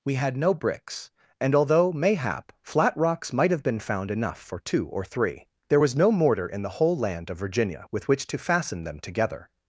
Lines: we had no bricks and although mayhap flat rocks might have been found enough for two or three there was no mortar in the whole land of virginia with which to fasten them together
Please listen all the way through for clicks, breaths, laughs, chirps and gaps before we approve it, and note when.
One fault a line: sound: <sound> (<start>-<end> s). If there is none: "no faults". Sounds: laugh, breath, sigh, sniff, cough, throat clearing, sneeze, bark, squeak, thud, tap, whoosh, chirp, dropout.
no faults